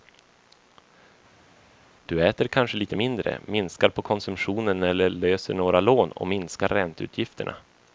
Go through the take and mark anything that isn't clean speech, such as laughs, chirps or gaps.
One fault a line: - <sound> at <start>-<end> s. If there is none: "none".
none